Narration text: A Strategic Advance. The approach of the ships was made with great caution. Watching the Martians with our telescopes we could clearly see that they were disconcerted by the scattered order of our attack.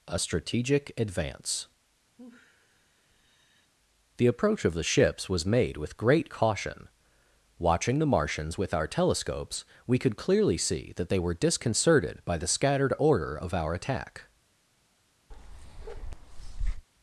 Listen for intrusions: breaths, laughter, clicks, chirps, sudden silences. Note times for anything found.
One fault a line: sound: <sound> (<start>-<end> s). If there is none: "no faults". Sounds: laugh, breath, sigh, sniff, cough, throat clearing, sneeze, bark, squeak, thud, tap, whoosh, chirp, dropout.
sound: sigh (2.2-3.7 s)
sound: bark (15.3-16.9 s)